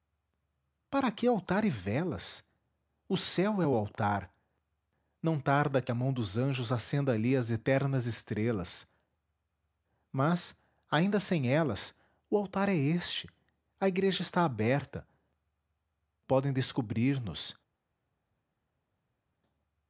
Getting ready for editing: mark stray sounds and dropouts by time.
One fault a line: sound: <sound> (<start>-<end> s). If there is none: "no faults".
no faults